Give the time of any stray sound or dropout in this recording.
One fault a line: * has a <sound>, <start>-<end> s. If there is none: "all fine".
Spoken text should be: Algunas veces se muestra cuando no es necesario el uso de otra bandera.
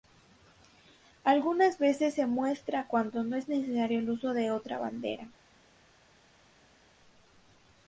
all fine